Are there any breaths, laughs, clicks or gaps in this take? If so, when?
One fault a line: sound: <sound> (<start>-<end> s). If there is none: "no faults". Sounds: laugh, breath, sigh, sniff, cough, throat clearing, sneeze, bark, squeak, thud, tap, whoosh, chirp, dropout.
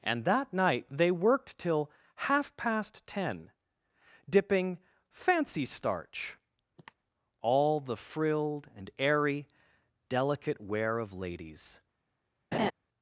sound: cough (6.8-6.9 s)
sound: laugh (12.5-12.7 s)